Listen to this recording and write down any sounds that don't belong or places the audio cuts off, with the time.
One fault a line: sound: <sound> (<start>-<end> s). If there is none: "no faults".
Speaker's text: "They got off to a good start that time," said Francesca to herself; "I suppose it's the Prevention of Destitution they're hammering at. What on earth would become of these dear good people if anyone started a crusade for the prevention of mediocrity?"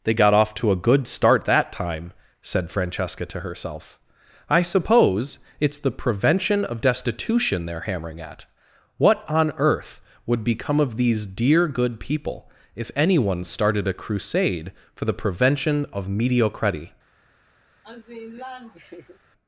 sound: laugh (17.8-19.2 s)